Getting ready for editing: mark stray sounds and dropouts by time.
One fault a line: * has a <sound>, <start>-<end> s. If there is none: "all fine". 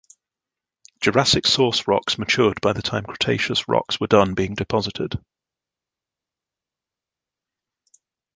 all fine